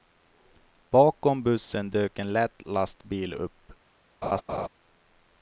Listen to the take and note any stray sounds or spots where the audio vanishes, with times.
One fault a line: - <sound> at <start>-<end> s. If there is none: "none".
- laugh at 4.2-4.7 s